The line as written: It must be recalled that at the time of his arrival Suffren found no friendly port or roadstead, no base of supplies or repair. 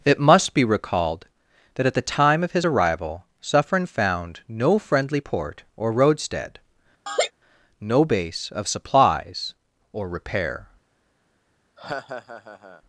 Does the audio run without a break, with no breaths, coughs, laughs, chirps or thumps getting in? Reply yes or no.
no